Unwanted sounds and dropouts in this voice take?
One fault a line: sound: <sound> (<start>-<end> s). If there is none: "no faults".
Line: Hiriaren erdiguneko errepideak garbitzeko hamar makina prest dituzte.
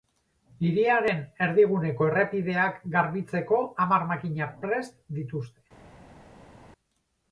no faults